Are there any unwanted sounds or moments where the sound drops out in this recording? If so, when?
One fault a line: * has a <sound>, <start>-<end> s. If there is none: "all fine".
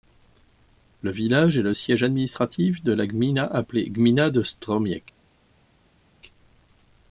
all fine